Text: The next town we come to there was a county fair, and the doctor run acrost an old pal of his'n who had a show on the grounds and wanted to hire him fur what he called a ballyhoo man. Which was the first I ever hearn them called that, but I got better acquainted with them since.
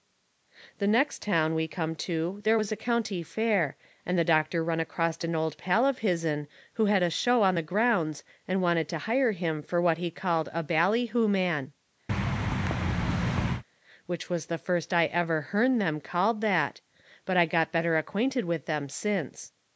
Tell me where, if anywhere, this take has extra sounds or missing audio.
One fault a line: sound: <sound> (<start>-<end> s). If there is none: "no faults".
sound: thud (12.1-13.6 s)